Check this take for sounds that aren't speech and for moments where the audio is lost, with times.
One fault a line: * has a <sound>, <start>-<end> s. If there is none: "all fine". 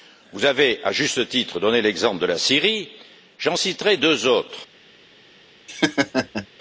* has a laugh, 5.7-6.5 s